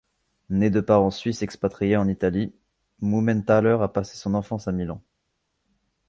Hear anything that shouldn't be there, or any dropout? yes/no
no